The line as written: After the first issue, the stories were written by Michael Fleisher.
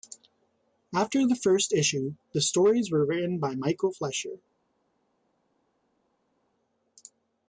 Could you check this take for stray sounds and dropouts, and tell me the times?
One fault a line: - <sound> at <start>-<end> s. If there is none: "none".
none